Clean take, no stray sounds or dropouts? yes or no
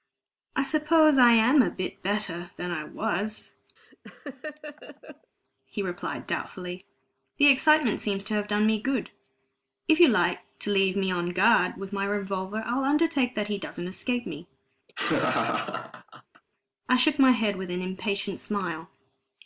no